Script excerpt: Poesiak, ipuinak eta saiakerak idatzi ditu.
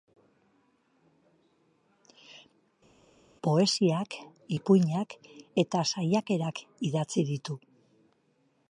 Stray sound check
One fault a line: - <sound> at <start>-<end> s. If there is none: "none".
none